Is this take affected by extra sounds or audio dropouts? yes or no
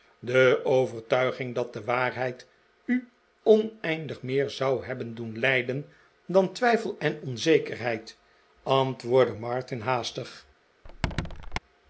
yes